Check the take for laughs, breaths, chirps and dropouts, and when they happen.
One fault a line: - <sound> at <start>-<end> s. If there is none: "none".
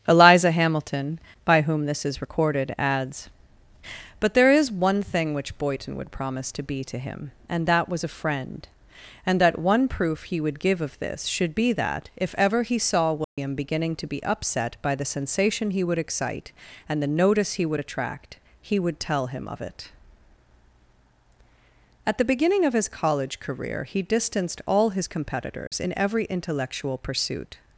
- dropout at 13.2-13.4 s
- dropout at 25.7-25.7 s